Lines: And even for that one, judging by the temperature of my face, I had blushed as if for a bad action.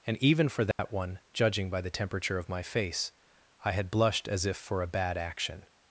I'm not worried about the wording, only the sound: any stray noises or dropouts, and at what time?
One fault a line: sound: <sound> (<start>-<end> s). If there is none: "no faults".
sound: dropout (0.7-0.8 s)